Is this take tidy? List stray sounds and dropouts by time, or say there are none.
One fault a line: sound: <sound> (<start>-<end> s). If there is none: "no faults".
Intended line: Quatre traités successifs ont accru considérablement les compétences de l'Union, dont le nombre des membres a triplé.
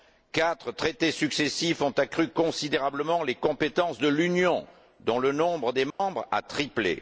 sound: dropout (5.9-6.0 s)